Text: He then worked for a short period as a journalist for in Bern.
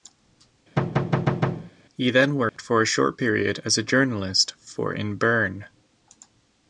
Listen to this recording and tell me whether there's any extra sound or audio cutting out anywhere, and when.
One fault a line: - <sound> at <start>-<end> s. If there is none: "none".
- thud at 0.8-1.7 s
- dropout at 2.5-2.6 s